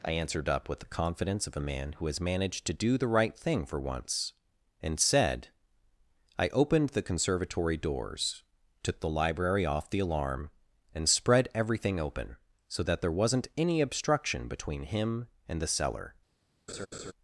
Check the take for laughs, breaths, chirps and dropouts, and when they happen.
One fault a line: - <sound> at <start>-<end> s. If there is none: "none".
- laugh at 16.7-17.1 s